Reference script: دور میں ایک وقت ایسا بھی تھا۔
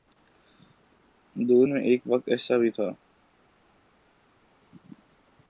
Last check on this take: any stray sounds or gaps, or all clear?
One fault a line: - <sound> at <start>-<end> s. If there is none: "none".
none